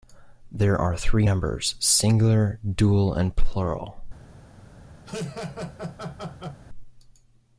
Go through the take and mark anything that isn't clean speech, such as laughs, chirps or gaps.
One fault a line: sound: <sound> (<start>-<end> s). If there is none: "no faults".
sound: laugh (5.1-6.6 s)